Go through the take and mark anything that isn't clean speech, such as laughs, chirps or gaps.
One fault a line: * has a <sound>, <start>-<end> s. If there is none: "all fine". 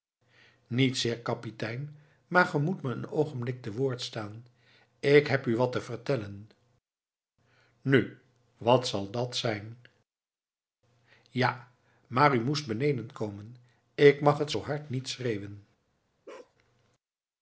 * has a bark, 16.3-16.6 s